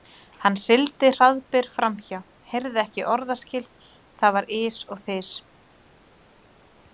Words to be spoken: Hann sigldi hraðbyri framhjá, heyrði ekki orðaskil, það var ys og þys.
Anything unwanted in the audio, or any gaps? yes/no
no